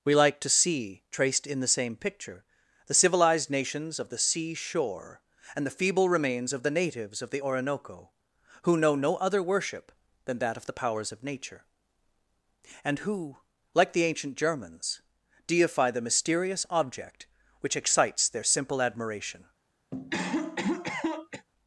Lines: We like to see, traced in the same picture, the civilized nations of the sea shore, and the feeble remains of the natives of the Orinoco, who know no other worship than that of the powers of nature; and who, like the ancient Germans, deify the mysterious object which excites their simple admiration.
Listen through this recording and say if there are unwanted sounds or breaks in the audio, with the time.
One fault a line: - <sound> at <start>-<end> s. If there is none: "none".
- cough at 19.9-21.5 s